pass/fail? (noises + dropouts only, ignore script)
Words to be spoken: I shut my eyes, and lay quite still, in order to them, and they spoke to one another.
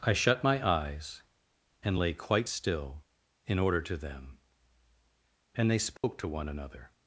fail